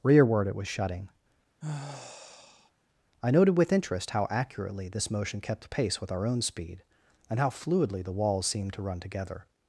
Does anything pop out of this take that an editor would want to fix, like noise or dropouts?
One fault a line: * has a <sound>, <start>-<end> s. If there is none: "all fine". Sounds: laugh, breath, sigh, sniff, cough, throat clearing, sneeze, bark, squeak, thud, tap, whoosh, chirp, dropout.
* has a sigh, 1.6-2.7 s